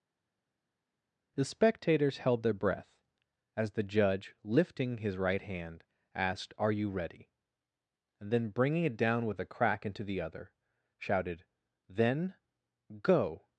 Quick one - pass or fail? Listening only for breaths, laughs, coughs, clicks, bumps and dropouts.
pass